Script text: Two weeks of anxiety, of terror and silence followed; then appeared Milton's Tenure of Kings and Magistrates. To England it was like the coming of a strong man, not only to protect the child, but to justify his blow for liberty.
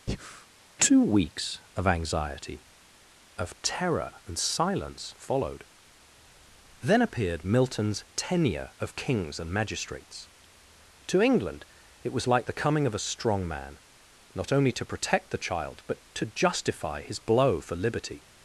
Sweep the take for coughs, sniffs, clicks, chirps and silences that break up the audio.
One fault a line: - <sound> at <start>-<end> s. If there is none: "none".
- breath at 0.1-0.5 s